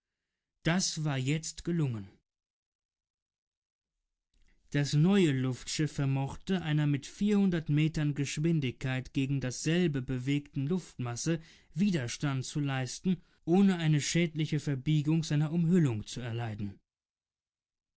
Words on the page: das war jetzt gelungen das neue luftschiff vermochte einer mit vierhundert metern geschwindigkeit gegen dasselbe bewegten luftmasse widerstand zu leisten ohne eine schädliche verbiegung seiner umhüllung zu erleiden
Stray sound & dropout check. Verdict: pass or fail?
pass